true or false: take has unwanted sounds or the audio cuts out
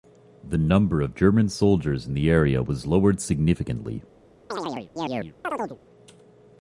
true